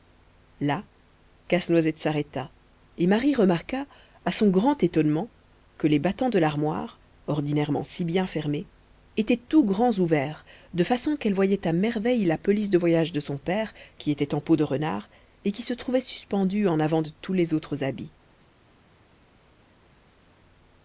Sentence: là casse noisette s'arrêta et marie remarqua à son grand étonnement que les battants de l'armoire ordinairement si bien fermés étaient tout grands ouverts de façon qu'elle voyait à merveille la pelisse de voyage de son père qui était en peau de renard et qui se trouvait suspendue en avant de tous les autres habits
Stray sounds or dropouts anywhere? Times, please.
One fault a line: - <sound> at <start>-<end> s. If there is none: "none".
none